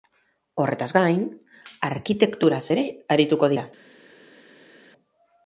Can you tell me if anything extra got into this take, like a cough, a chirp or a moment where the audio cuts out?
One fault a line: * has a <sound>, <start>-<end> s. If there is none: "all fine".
all fine